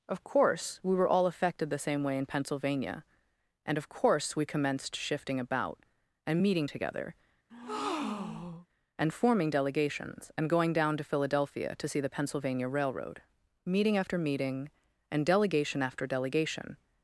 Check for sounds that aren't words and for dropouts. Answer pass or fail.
fail